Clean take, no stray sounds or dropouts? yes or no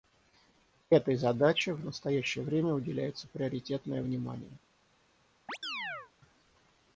no